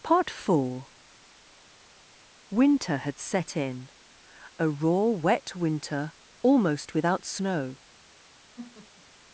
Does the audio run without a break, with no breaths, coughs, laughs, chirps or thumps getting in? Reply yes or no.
no